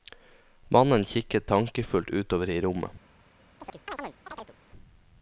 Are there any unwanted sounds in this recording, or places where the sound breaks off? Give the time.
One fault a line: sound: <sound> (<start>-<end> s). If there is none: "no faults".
sound: chirp (3.6-4.6 s)